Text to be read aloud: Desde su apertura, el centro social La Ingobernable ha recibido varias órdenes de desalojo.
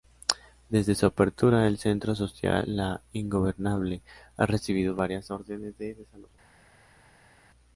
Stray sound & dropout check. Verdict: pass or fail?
pass